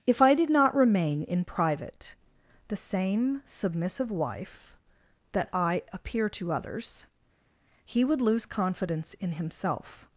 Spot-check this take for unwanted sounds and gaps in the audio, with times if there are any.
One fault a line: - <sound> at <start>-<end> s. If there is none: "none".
none